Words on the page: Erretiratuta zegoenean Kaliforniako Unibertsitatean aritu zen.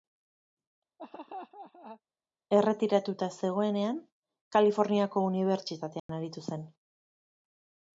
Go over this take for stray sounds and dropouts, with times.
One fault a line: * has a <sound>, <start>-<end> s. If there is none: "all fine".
* has a laugh, 1.0-2.0 s
* has a dropout, 6.0-6.1 s